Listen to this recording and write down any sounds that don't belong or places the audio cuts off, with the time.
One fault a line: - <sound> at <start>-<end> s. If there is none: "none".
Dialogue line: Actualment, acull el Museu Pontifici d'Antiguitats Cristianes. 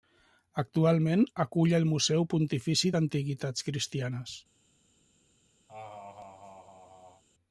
- laugh at 5.7-7.2 s